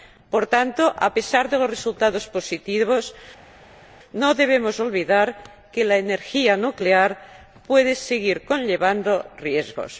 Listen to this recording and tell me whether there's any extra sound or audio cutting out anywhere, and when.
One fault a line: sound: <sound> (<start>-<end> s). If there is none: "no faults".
no faults